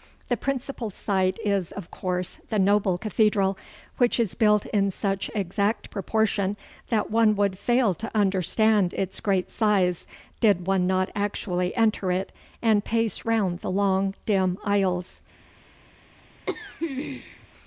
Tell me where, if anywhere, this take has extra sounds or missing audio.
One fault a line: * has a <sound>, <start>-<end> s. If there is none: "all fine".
* has a throat clearing, 16.5-17.5 s